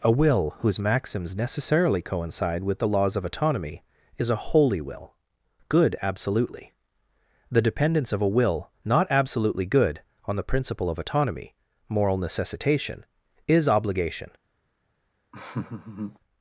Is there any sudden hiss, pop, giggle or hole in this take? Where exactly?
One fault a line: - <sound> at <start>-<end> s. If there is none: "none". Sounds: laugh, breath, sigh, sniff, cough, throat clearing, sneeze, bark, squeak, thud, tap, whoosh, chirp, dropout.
- laugh at 15.3-16.2 s